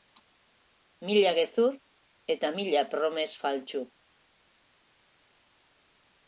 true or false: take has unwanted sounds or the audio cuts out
false